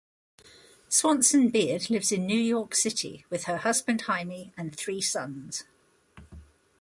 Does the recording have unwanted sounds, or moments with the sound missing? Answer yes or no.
no